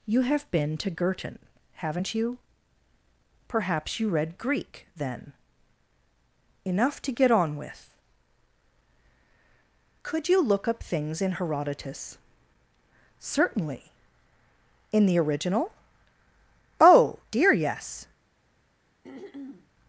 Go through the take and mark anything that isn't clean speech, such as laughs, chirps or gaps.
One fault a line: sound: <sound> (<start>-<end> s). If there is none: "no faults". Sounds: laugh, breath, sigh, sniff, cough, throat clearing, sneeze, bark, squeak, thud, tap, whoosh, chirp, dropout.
sound: throat clearing (19.0-19.7 s)